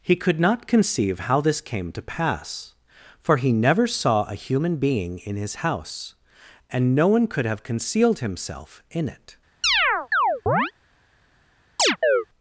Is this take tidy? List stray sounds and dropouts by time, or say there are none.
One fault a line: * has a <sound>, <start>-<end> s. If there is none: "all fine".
* has a chirp, 9.6-10.7 s
* has a chirp, 11.8-12.3 s